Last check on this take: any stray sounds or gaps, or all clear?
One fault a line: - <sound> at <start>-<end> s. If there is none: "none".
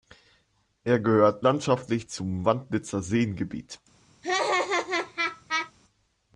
- laugh at 4.2-5.7 s